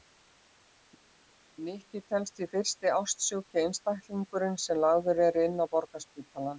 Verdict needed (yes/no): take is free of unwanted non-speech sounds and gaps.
yes